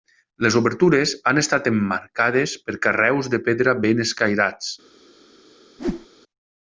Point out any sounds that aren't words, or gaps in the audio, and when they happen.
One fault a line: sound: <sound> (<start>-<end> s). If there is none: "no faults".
sound: whoosh (5.8-6.1 s)